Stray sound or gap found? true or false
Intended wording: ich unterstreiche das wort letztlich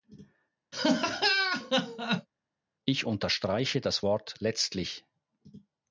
true